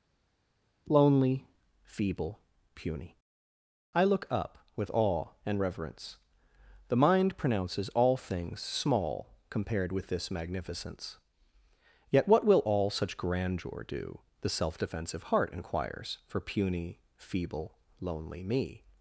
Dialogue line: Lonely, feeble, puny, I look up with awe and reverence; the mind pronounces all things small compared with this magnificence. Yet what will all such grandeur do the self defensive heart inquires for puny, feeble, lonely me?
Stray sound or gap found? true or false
false